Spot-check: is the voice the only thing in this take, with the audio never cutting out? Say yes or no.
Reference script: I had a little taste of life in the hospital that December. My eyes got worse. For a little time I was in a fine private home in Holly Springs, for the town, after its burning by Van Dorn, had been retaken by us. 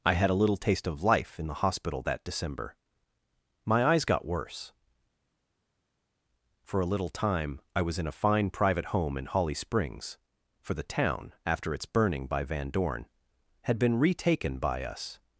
yes